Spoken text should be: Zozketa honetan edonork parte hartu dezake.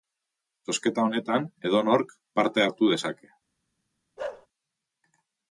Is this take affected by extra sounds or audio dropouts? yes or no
yes